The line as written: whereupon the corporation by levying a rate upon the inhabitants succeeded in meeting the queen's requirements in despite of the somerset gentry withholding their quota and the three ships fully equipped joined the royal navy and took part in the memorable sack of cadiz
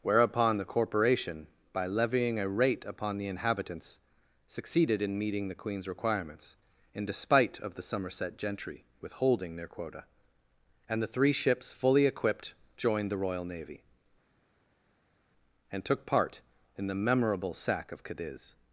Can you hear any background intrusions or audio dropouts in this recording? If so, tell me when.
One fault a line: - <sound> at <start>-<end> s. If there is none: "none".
none